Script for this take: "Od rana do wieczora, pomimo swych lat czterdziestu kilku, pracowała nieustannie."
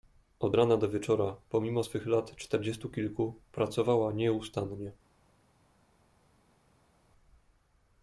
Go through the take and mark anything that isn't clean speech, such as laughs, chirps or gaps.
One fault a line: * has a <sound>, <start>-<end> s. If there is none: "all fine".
all fine